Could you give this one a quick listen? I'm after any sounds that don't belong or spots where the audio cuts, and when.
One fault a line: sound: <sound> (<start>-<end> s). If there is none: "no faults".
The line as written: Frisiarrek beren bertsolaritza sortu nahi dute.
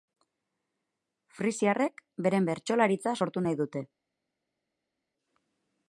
no faults